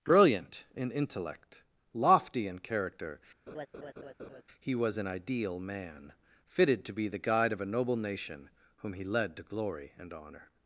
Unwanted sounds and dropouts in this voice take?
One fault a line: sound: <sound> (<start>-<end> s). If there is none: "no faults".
sound: laugh (3.5-4.4 s)